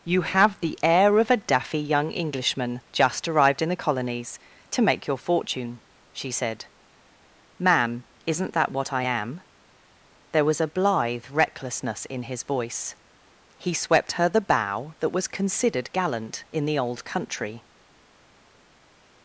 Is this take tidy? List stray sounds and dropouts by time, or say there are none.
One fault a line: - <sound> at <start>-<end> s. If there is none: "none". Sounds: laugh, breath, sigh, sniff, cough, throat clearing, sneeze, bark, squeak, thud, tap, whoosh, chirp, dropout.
none